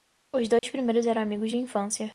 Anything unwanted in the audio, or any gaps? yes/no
yes